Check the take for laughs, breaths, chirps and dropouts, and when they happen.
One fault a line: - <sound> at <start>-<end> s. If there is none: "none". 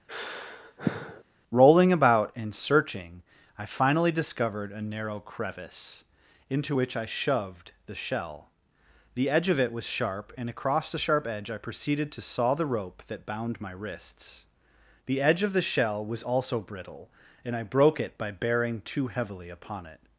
- sigh at 0.1-1.2 s